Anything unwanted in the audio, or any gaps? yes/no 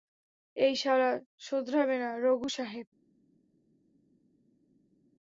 no